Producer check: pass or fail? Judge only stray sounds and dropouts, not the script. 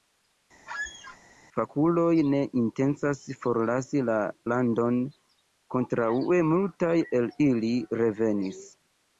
fail